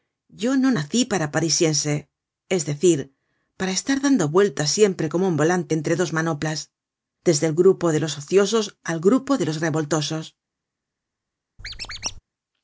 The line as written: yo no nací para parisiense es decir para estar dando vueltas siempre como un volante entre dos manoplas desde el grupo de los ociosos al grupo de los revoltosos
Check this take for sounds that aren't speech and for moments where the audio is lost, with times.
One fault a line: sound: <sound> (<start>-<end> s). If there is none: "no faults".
sound: squeak (11.6-12.2 s)